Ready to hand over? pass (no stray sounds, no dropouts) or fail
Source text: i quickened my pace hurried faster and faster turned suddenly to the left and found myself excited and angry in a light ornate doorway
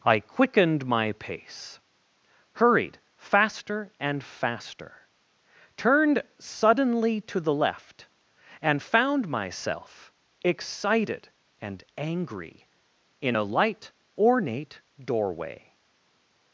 pass